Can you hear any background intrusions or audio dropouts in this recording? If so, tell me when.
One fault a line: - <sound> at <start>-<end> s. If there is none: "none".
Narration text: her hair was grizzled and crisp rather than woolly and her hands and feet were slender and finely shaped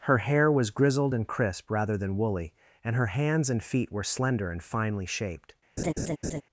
- laugh at 5.8-6.4 s